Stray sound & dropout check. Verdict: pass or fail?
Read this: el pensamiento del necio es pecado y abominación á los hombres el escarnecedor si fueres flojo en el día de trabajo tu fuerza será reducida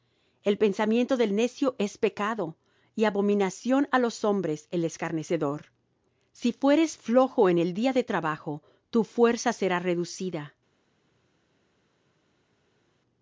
pass